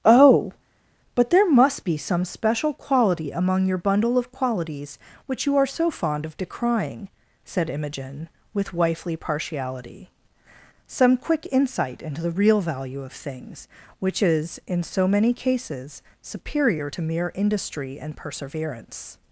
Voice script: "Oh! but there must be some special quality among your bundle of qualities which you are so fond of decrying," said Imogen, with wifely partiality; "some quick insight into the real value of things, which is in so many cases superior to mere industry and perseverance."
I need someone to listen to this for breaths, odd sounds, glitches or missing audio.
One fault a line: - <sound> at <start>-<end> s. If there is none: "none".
none